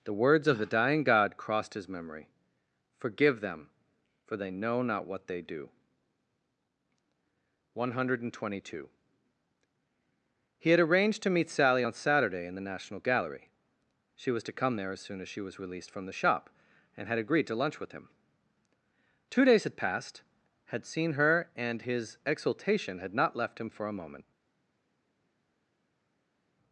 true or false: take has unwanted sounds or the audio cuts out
false